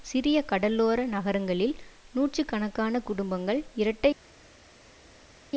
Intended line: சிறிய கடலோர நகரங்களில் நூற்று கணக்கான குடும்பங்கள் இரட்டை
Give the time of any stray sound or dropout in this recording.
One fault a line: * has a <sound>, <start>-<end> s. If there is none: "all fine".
all fine